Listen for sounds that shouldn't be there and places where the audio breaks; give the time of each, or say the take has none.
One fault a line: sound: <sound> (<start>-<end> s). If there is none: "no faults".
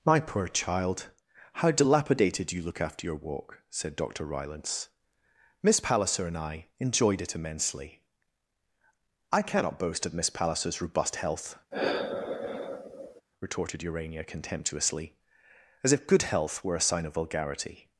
sound: sigh (11.7-13.2 s)